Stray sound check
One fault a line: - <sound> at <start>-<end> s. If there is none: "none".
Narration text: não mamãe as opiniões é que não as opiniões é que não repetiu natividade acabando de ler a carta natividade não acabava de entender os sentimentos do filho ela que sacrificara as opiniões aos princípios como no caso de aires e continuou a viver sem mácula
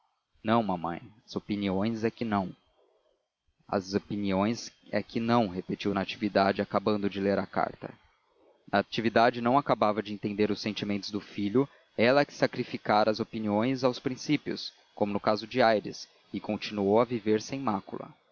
none